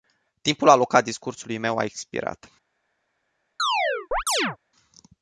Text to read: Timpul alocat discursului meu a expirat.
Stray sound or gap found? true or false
true